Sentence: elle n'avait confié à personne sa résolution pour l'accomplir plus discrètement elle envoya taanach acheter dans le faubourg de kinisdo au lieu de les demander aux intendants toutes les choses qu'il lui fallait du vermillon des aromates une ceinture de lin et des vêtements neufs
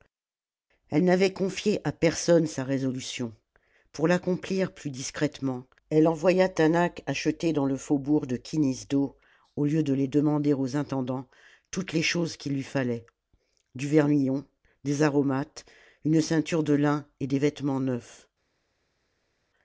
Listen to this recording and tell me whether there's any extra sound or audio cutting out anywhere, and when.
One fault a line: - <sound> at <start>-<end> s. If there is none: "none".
none